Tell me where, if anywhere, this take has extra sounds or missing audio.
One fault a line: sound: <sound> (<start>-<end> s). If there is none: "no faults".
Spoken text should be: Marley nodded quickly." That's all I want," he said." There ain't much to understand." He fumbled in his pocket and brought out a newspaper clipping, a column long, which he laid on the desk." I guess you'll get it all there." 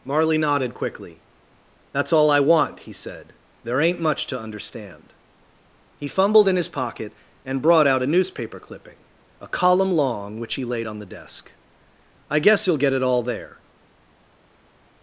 no faults